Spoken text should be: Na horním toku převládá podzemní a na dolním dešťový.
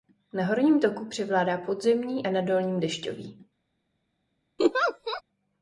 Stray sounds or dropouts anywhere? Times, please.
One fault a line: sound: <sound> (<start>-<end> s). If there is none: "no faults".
sound: laugh (4.6-5.2 s)